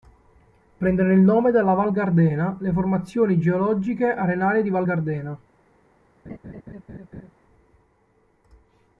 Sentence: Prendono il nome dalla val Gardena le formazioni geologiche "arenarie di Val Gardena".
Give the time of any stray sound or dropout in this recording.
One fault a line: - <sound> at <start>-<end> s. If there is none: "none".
- laugh at 6.2-7.3 s